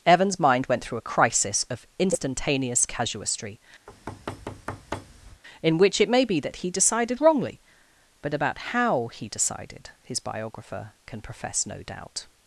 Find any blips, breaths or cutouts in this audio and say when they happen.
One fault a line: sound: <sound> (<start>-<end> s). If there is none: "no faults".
sound: thud (3.9-5.4 s)